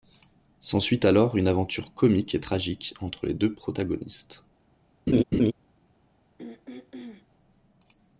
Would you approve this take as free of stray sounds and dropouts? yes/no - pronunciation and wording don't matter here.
no